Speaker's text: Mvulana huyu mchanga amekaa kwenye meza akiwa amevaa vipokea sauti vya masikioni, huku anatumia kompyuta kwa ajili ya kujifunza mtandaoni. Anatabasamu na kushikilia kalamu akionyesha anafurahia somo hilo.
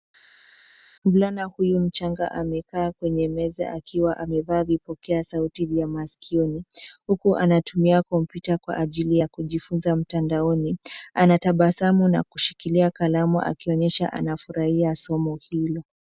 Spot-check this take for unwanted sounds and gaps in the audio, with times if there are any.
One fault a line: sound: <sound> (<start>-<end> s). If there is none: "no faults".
no faults